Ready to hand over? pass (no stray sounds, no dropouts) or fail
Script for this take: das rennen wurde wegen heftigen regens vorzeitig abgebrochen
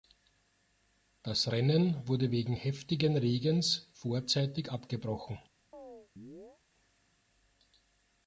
fail